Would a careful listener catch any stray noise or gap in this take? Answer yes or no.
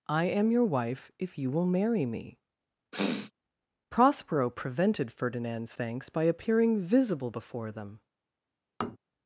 yes